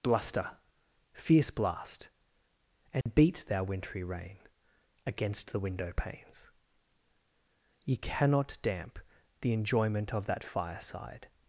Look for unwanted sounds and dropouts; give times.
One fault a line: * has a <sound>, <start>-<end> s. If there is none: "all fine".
* has a dropout, 3.0-3.1 s